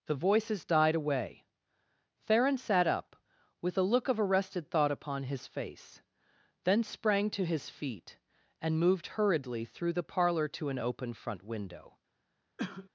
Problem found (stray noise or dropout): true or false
true